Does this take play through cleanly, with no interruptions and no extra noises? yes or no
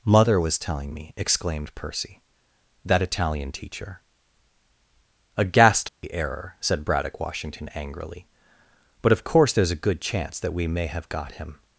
no